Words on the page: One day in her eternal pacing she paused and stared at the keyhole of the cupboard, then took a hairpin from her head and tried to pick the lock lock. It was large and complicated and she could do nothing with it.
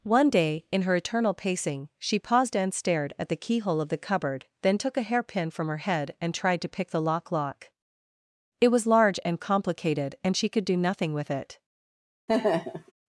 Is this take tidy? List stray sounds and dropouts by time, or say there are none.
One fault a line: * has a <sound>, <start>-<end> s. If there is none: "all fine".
* has a laugh, 12.3-12.9 s